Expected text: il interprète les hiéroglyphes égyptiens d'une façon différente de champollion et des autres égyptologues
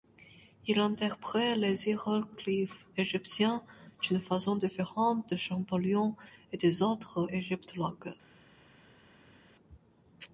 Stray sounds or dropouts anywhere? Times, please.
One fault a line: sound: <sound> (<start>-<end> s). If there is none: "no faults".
no faults